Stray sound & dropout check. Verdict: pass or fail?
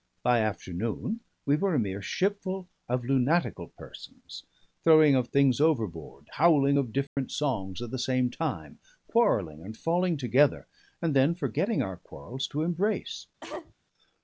fail